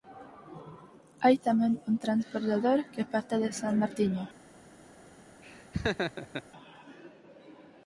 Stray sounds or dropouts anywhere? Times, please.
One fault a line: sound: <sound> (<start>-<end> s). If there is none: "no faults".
sound: laugh (5.4-6.4 s)